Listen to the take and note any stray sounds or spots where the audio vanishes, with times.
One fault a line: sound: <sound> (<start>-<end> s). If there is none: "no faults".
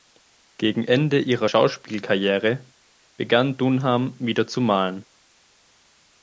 no faults